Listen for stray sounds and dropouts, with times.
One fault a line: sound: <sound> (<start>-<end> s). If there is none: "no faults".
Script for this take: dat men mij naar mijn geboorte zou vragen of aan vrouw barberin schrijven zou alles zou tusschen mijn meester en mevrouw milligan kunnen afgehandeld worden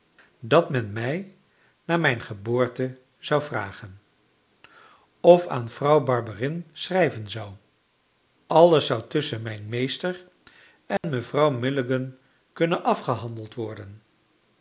sound: dropout (11.0-11.0 s)